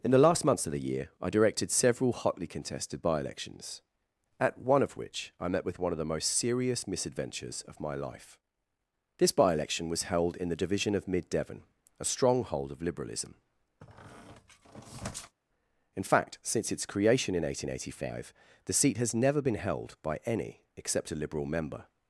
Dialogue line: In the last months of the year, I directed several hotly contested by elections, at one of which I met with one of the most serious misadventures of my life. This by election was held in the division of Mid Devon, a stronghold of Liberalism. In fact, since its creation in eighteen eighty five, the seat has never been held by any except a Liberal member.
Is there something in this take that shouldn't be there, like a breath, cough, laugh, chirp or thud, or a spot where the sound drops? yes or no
yes